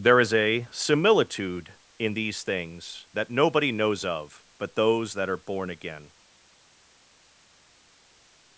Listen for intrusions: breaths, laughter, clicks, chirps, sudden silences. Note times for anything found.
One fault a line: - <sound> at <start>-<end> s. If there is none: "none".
none